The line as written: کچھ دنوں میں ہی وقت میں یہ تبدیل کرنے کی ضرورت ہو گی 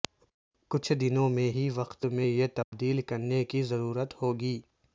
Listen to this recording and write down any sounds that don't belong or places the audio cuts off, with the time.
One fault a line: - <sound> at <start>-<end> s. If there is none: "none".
- dropout at 2.6-2.7 s